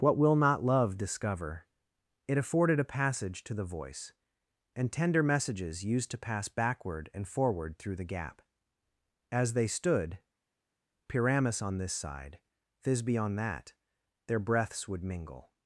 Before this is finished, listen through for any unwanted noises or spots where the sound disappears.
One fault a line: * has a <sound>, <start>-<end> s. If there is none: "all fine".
all fine